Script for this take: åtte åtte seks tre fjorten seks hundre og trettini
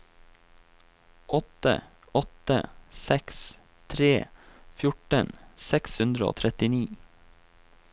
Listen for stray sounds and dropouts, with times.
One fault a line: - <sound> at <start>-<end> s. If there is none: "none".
none